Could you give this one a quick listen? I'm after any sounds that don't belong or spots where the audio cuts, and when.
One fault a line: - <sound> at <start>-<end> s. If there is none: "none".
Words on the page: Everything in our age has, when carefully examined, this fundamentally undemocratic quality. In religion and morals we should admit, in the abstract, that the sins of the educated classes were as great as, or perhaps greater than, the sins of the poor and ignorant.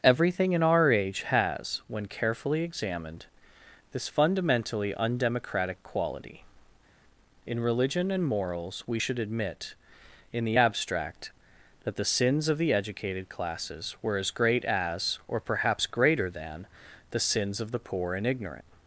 none